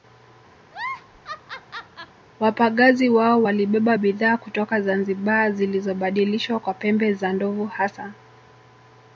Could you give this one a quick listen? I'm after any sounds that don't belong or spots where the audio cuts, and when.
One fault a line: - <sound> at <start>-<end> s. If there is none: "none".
- laugh at 0.6-2.2 s